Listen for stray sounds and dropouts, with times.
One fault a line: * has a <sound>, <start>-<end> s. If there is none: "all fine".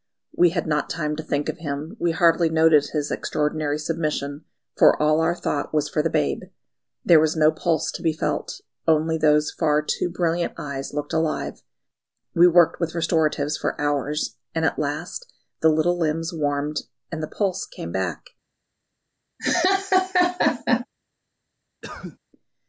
* has a laugh, 19.4-20.9 s
* has a cough, 21.8-22.2 s